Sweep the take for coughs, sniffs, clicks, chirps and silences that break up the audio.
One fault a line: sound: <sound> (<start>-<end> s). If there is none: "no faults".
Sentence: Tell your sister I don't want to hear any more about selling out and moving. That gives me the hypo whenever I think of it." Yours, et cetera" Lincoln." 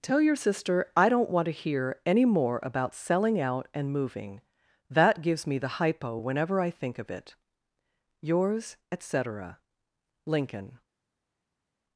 no faults